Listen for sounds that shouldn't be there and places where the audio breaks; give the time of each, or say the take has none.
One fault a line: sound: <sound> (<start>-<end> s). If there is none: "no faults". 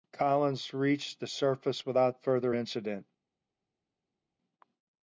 no faults